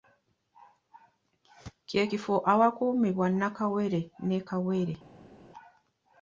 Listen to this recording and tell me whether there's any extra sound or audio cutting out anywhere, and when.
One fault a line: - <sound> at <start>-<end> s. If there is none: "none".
none